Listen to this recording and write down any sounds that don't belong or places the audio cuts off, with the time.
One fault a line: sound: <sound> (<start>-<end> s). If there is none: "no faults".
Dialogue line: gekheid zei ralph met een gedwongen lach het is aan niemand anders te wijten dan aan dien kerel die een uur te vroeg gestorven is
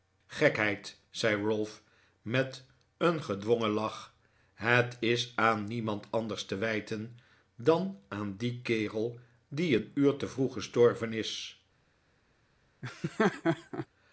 sound: laugh (12.8-13.9 s)